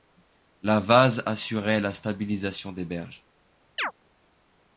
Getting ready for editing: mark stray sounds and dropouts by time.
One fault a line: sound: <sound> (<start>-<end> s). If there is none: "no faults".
sound: chirp (3.8-3.9 s)